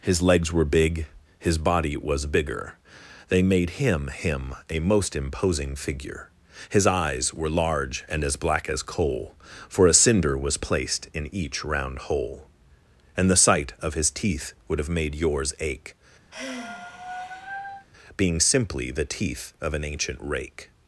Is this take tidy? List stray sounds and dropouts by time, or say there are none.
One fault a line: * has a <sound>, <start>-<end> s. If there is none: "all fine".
* has a sigh, 16.3-17.9 s